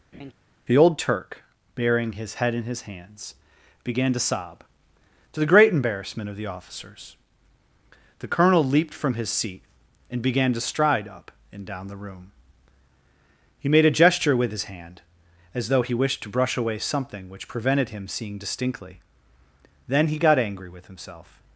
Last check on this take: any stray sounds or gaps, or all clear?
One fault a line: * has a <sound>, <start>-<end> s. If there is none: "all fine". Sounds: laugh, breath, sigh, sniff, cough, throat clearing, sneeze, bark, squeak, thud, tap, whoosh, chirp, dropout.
* has a laugh, 0.1-0.3 s